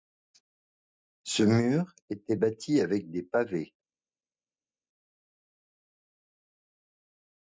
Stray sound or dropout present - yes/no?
no